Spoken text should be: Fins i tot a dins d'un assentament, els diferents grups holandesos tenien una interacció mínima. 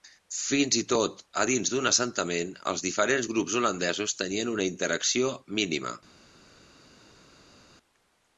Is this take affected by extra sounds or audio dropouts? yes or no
no